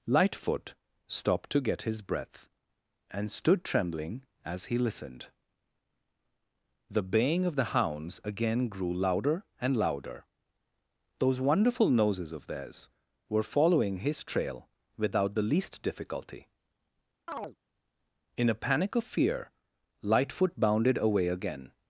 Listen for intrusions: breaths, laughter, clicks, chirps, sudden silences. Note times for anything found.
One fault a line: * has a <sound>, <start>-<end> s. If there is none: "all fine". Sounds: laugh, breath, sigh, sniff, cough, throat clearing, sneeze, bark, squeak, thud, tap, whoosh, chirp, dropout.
* has a chirp, 17.3-17.6 s